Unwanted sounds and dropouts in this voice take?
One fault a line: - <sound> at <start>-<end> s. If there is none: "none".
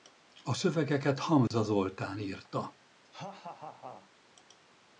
- dropout at 1.5-1.5 s
- laugh at 3.0-4.1 s